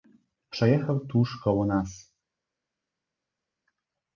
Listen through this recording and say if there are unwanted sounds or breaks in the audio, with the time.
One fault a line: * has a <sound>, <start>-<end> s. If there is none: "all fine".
all fine